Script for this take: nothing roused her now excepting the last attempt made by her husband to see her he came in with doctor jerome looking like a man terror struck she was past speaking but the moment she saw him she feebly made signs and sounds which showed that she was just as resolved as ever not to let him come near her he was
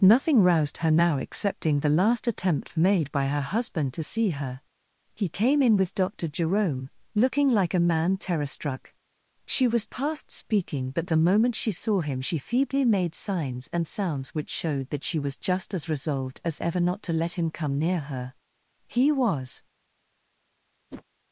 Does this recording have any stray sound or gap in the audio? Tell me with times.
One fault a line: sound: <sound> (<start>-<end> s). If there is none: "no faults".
sound: whoosh (20.9-21.0 s)